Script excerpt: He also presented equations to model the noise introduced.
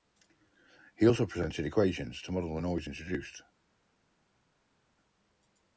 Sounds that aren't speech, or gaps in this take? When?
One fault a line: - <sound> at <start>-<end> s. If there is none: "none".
none